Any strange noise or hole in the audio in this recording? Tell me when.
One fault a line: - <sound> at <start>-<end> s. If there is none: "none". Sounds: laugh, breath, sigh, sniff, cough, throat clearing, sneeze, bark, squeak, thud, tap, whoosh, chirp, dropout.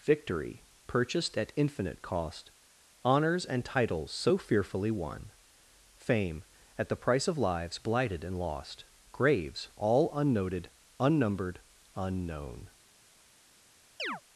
- chirp at 14.0-14.2 s